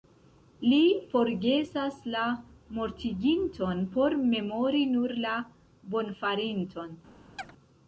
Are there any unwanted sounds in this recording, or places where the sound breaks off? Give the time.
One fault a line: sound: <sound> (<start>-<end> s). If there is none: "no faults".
sound: chirp (7.4-7.5 s)